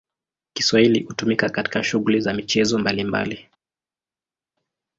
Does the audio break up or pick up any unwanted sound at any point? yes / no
no